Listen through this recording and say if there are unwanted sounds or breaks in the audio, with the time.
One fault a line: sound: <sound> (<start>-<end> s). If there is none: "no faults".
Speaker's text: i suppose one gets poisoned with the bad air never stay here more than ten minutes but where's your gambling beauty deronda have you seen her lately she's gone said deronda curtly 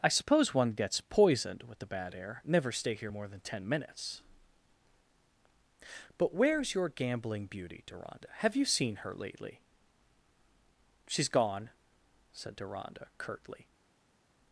no faults